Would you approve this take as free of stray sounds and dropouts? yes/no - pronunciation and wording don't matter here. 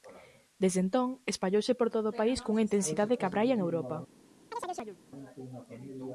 no